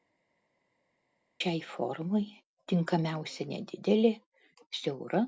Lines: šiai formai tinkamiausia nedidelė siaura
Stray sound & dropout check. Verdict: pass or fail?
pass